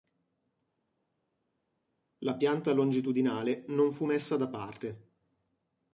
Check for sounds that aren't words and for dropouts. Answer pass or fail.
pass